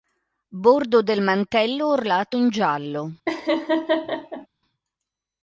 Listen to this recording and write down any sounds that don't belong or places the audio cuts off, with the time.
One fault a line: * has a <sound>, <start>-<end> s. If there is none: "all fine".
* has a laugh, 3.3-4.5 s